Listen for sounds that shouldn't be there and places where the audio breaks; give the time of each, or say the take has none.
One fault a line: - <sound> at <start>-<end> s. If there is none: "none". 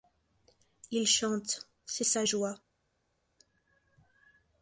none